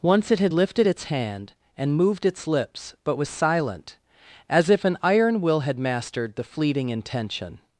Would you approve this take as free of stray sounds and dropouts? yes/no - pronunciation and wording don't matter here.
yes